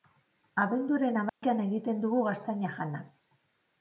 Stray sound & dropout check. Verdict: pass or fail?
fail